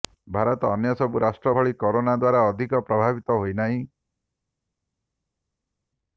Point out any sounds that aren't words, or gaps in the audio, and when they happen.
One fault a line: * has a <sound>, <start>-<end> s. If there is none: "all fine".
all fine